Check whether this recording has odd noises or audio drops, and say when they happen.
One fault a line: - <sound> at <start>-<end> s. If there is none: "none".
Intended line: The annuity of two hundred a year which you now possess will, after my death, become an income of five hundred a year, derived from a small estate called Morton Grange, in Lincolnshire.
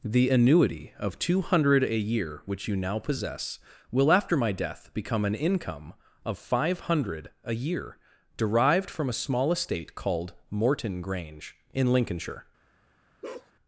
- bark at 13.2-13.5 s